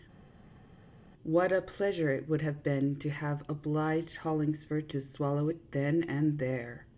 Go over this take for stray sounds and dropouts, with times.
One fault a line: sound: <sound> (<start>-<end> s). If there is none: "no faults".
no faults